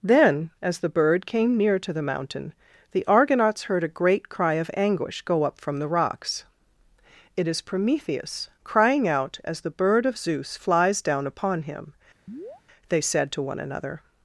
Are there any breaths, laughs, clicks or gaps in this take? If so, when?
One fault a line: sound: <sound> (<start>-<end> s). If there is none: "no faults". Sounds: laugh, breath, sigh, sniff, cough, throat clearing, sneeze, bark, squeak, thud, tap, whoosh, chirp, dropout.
sound: chirp (12.3-12.6 s)